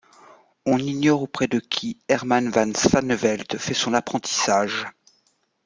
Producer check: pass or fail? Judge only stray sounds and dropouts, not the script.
pass